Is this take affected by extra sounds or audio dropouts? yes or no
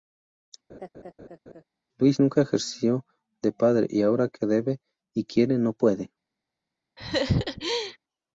yes